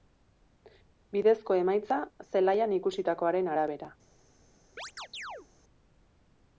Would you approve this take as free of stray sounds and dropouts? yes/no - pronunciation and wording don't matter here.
no